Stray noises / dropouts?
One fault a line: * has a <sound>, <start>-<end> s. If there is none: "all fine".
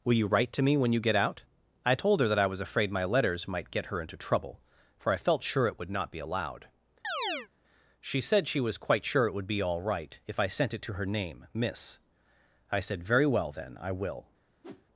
* has a chirp, 7.0-7.5 s
* has a whoosh, 14.6-14.9 s